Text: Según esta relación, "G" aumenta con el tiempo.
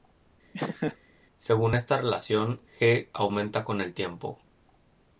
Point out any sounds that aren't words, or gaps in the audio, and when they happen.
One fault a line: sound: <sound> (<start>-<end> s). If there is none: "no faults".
sound: laugh (0.5-1.0 s)